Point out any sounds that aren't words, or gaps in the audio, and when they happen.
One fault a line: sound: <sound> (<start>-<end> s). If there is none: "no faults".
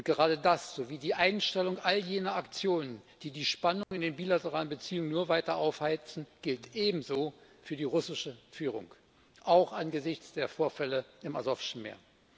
sound: dropout (3.8-3.9 s)